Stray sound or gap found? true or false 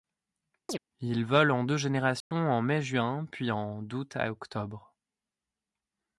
true